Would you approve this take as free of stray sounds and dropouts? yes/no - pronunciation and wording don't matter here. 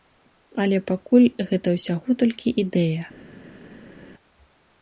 yes